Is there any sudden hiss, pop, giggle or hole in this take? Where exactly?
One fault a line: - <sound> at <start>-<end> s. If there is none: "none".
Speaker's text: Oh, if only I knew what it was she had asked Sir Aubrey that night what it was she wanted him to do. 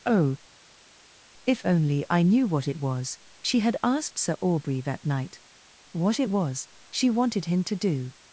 none